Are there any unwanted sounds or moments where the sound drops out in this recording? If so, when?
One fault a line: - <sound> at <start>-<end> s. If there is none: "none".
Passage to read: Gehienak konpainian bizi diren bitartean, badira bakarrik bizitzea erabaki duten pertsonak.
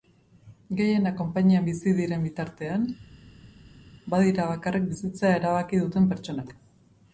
none